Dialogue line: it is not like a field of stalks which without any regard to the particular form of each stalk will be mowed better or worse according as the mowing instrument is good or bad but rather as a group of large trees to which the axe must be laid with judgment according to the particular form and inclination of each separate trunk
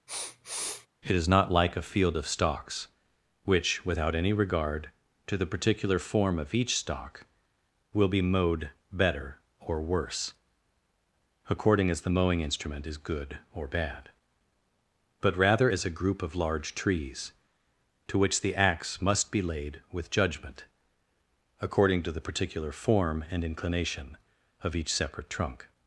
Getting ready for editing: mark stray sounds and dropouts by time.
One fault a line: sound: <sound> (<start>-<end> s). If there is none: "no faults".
sound: sniff (0.1-0.9 s)